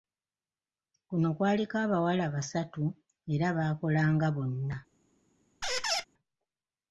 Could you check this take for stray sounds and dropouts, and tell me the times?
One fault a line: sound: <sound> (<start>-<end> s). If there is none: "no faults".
sound: squeak (5.6-6.0 s)